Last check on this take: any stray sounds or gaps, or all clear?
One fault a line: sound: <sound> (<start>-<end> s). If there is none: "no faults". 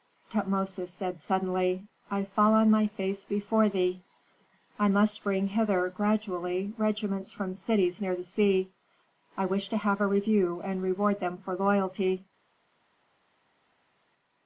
no faults